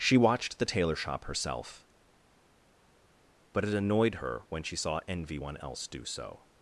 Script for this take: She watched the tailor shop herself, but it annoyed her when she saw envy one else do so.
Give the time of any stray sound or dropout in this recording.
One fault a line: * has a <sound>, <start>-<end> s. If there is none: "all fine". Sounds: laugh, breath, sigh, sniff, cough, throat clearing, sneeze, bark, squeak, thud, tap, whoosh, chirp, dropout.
all fine